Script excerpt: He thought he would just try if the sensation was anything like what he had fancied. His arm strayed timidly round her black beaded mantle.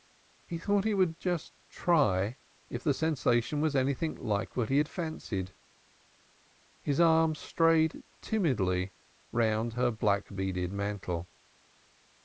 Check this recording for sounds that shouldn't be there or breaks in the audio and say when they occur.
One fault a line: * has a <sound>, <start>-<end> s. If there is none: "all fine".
all fine